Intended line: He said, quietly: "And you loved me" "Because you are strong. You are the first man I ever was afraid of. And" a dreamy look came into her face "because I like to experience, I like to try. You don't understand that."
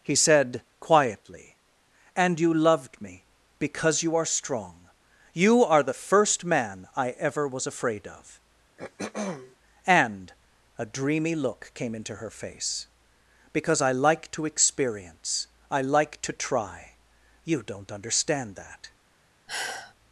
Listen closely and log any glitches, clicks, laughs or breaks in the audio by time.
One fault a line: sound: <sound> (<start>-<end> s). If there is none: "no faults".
sound: throat clearing (8.8-9.6 s)
sound: sigh (19.5-19.9 s)